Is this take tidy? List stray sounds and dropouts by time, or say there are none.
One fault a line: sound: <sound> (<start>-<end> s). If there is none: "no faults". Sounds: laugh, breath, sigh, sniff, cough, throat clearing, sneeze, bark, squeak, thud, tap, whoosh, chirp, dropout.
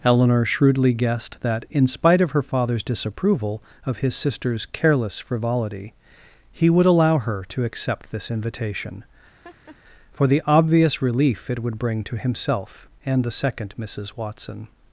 sound: laugh (9.4-9.8 s)